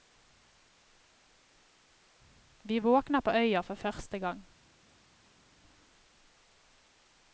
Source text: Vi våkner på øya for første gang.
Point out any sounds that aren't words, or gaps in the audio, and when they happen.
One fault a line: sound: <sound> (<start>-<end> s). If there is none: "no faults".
no faults